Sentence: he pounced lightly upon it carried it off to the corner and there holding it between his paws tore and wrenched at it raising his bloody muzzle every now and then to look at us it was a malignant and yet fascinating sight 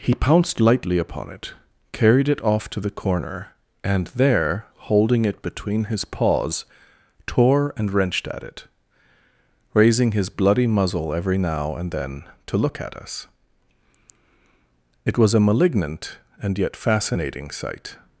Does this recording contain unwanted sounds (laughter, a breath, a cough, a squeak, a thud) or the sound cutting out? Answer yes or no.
no